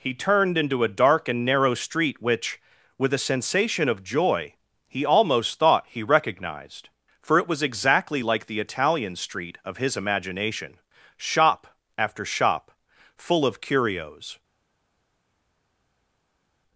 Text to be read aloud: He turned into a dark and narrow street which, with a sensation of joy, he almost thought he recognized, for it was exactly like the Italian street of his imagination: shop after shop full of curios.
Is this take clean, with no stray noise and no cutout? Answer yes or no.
yes